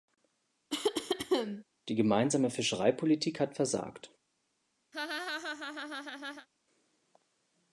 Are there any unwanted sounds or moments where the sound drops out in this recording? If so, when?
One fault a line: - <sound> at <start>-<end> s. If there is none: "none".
- cough at 0.7-1.6 s
- laugh at 4.9-6.5 s